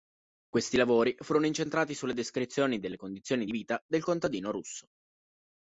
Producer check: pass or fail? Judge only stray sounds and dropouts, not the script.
pass